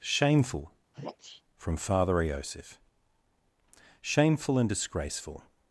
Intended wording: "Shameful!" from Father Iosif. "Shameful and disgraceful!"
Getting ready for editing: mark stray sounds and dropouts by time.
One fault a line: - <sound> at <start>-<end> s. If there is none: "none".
- sneeze at 0.9-1.4 s